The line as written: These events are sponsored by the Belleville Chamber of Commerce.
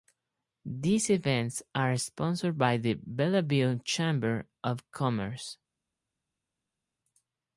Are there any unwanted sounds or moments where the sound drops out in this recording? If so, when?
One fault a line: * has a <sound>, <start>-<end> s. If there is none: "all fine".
all fine